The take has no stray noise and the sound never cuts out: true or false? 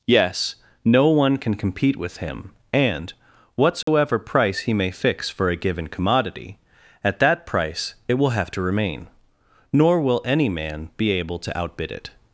false